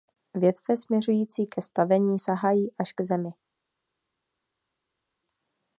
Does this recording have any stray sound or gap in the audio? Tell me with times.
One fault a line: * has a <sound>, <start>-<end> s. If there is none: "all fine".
all fine